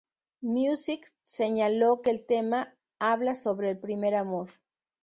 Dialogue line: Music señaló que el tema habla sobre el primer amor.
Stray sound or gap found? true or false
false